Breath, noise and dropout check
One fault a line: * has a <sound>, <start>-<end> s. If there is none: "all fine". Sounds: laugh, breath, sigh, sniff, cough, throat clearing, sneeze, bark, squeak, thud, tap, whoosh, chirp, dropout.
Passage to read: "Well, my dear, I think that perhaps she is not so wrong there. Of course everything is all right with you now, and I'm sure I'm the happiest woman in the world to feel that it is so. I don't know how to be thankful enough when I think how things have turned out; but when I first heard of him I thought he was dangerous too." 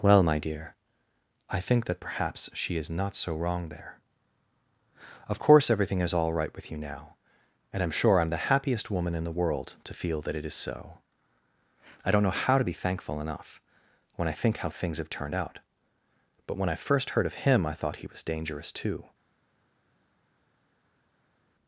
all fine